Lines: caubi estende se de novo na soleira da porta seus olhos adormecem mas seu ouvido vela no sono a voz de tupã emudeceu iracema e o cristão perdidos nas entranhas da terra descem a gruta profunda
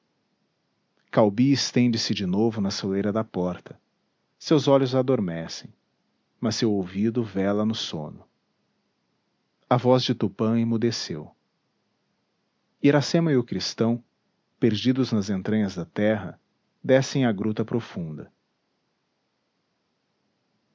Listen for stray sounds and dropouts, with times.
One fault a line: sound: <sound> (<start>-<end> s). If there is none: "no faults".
no faults